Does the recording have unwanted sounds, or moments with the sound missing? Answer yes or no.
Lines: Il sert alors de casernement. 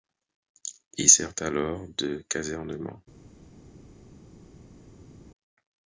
no